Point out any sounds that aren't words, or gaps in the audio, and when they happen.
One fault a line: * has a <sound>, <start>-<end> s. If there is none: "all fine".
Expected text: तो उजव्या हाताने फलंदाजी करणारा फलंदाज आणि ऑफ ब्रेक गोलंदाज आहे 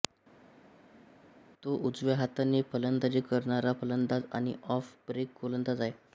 all fine